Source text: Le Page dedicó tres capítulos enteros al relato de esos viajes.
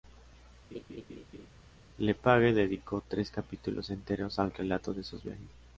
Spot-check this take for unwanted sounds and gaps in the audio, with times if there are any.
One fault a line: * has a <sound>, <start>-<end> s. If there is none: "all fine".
* has a laugh, 0.7-1.5 s